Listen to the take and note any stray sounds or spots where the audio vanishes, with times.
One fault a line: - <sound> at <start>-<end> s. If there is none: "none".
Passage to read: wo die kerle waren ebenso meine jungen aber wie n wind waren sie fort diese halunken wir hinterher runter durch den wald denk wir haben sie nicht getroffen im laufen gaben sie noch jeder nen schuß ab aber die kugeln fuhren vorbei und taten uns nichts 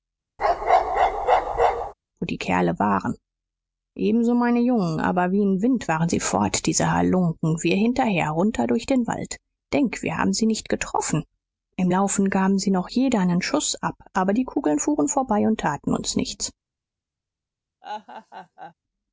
- bark at 0.4-1.9 s
- laugh at 17.8-18.7 s